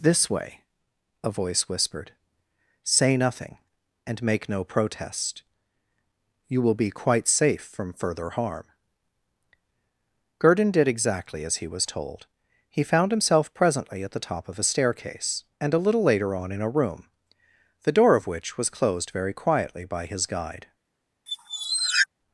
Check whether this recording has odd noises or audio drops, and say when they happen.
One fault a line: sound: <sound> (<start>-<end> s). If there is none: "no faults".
sound: squeak (21.3-22.1 s)